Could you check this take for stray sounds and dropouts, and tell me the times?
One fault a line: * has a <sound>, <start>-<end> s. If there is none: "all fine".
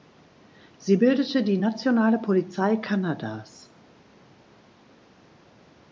all fine